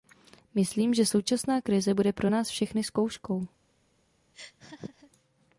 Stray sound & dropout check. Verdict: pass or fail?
fail